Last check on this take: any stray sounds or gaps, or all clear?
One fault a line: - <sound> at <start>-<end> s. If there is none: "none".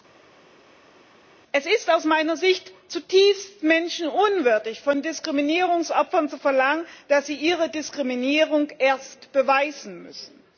none